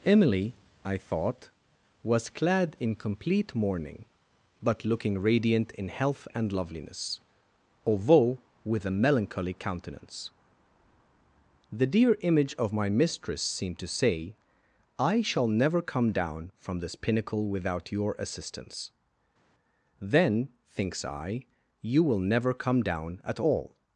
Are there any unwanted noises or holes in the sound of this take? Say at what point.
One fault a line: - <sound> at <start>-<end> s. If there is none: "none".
none